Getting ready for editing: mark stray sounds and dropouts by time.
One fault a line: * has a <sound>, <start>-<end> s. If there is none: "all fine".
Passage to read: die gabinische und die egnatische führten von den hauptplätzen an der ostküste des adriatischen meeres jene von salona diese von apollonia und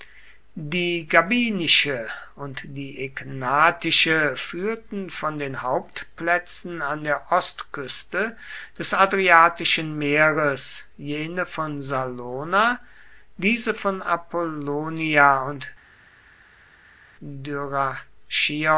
all fine